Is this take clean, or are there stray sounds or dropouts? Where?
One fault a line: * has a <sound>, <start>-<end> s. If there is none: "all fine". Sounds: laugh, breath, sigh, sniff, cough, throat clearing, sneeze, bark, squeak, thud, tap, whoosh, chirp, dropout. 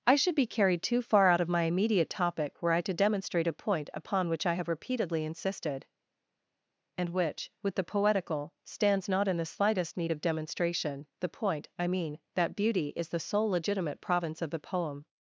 all fine